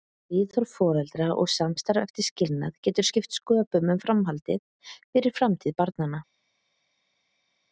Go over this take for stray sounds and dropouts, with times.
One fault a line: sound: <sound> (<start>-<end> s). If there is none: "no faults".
no faults